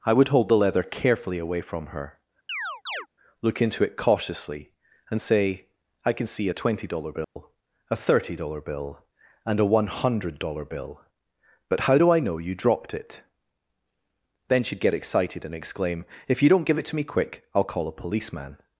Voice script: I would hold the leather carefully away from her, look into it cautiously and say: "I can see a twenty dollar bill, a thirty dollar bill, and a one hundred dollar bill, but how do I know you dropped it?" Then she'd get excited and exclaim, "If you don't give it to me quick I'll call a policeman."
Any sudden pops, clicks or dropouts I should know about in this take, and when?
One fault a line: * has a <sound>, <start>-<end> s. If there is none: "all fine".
* has a chirp, 2.5-3.1 s
* has a dropout, 7.2-7.4 s